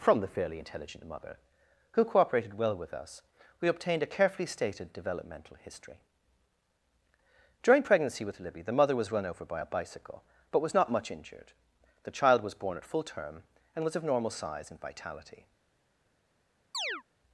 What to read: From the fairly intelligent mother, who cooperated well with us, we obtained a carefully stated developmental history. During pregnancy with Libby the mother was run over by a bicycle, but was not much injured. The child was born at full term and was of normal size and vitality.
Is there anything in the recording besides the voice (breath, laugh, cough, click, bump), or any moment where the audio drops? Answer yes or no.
yes